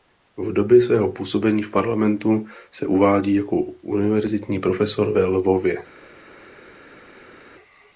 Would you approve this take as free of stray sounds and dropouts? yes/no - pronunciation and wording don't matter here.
yes